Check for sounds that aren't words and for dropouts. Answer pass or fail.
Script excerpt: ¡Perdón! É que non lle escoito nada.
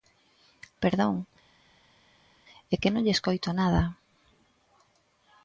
pass